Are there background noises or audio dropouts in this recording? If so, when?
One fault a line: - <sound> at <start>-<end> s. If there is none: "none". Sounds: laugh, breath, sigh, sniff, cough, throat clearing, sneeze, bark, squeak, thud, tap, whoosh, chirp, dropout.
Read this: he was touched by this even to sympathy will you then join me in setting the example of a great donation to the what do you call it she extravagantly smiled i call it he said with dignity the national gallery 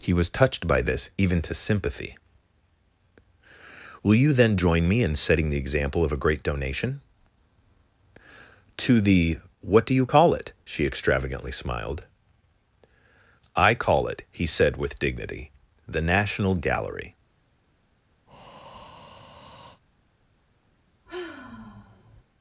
- breath at 18.3-19.8 s
- sigh at 21.1-22.2 s